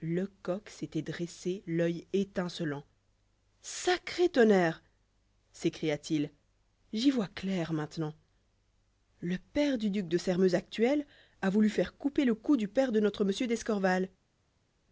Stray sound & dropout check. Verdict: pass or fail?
pass